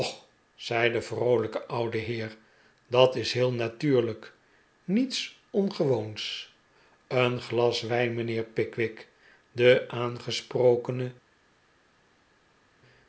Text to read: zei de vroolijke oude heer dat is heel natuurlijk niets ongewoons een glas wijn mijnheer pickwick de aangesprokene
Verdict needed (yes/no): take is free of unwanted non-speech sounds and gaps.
yes